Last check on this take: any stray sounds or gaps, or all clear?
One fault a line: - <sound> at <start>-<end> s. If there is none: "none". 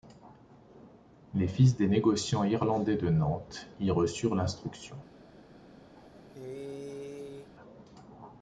- cough at 6.0-7.5 s